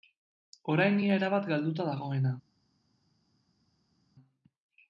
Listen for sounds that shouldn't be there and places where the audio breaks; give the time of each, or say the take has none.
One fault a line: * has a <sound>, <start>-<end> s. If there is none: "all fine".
all fine